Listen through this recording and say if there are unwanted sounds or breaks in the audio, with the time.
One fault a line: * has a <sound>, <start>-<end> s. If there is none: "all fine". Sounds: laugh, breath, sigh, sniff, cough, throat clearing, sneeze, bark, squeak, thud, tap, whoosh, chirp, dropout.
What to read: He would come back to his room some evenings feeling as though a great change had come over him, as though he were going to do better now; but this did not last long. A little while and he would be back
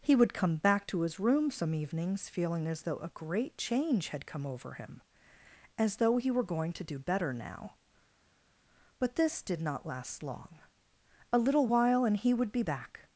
all fine